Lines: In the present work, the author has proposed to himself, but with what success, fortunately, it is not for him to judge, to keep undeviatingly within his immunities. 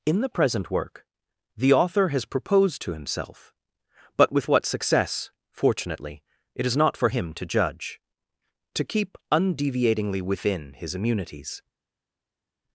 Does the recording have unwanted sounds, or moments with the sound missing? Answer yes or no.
no